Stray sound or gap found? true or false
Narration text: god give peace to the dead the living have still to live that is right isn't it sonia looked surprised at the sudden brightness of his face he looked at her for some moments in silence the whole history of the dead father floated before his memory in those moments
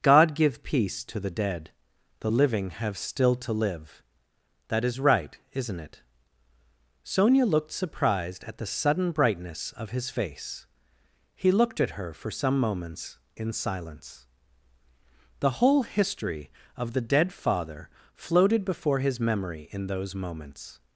false